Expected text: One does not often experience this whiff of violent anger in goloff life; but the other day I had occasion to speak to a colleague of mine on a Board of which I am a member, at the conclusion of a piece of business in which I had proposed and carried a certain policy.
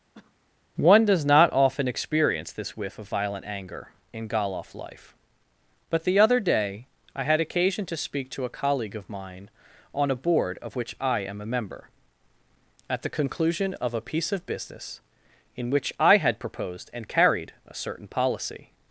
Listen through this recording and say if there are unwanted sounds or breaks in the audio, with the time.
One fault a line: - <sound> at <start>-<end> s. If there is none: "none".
- cough at 0.1-0.4 s